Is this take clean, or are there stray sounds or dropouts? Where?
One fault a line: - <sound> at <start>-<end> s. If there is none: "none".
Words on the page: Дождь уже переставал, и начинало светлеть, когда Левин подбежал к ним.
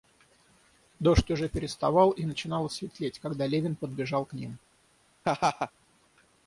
- laugh at 5.2-5.7 s